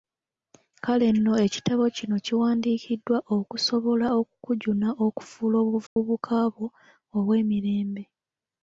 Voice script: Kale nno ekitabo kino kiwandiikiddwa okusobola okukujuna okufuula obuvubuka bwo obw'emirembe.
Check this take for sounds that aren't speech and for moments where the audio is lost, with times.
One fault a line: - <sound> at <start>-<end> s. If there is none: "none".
- dropout at 5.9-6.0 s